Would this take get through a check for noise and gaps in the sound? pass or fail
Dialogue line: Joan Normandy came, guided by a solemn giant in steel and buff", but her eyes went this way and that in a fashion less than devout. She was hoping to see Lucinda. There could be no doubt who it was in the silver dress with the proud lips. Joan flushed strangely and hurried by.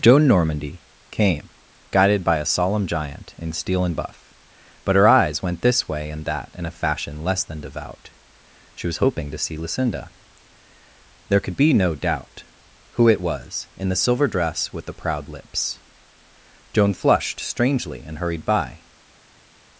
pass